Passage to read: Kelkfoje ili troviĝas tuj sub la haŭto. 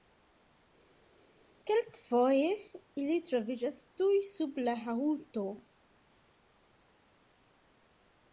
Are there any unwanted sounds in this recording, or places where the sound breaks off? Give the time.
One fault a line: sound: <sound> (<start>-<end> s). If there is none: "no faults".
no faults